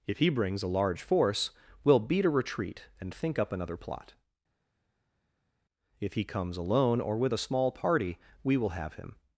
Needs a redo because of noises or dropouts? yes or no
no